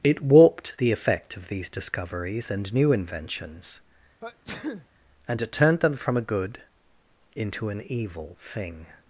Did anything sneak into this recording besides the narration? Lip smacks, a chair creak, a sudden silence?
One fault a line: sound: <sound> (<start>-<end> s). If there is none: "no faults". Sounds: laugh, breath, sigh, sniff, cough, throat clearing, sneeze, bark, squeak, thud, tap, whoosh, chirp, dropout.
sound: sneeze (4.2-4.9 s)